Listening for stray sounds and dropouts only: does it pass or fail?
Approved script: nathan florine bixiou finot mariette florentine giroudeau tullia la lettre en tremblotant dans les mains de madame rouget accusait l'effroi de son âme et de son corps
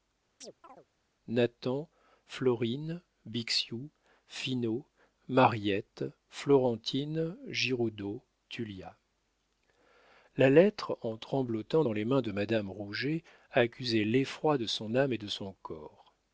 fail